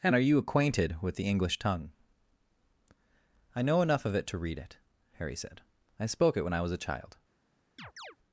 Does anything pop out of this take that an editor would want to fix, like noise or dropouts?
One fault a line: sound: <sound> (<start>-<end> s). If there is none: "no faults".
sound: chirp (7.8-8.2 s)